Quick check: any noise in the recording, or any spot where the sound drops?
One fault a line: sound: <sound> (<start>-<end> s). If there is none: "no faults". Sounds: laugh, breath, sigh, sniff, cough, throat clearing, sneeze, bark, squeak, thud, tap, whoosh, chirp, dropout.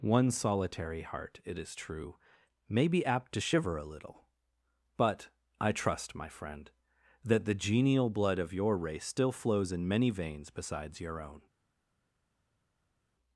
no faults